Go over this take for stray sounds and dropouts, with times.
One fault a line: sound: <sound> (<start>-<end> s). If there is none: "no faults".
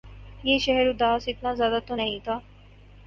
no faults